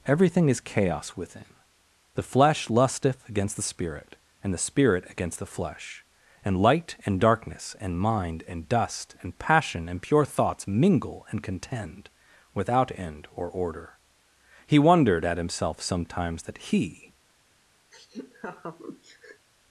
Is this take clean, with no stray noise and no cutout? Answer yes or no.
no